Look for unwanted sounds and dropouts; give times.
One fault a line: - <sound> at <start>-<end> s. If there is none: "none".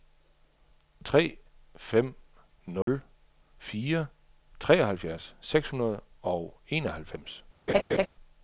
- dropout at 2.8-2.9 s
- laugh at 7.7-8.1 s